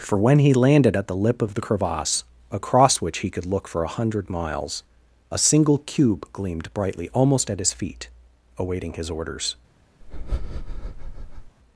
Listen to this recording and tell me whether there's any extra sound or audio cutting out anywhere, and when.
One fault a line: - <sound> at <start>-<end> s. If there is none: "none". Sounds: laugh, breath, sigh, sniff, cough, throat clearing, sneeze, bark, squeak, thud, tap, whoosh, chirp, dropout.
- breath at 10.0-11.6 s